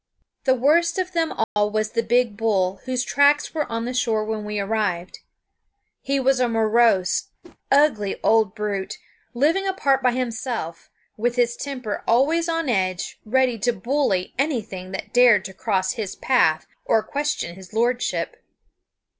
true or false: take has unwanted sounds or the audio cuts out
true